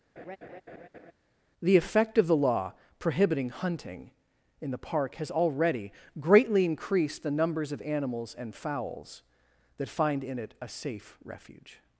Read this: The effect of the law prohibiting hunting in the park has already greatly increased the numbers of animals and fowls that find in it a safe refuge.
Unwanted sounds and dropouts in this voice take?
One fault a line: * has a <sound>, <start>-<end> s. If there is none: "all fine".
* has a laugh, 0.2-1.1 s